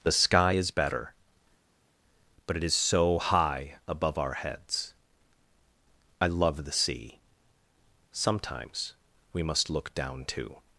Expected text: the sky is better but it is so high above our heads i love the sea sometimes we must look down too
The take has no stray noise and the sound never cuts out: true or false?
true